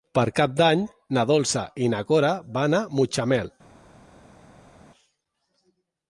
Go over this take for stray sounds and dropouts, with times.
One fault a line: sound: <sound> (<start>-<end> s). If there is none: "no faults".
no faults